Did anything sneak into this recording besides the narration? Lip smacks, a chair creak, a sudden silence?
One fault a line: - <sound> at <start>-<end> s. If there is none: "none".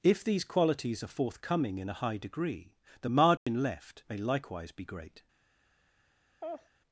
- dropout at 3.4-3.5 s
- laugh at 6.4-6.7 s